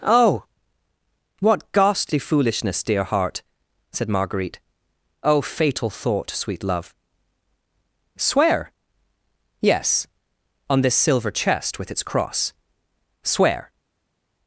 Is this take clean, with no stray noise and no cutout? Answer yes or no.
yes